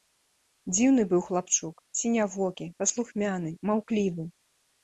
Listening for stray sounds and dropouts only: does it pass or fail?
pass